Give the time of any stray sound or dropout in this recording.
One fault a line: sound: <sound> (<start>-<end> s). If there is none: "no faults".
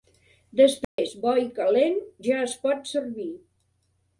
sound: dropout (0.8-1.0 s)